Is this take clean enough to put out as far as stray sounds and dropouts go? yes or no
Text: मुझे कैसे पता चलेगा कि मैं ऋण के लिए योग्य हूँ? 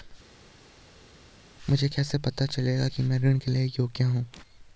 yes